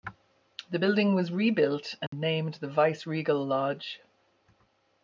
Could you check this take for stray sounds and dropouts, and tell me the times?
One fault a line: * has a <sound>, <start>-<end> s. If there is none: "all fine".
* has a dropout, 2.1-2.1 s